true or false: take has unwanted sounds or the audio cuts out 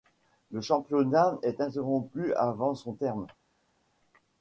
false